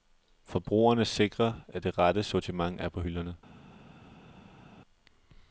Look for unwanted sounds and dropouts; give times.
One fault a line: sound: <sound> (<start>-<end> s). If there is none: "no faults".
no faults